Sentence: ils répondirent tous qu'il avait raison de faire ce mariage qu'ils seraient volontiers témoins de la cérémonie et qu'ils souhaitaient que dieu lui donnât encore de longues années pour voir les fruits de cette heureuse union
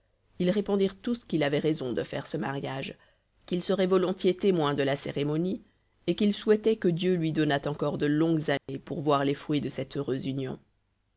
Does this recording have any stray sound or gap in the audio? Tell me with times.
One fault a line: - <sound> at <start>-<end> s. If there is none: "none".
- dropout at 8.6-8.7 s